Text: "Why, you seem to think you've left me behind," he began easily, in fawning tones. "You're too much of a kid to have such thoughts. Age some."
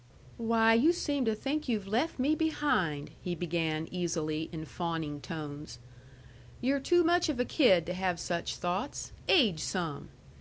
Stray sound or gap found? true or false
false